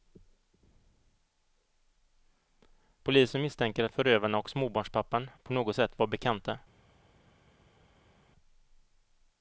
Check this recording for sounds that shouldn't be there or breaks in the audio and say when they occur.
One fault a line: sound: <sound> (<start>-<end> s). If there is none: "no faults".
no faults